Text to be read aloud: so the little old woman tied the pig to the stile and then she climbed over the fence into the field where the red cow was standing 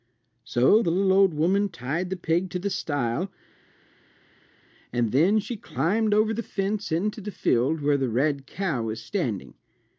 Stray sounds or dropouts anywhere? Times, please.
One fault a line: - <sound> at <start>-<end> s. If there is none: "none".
none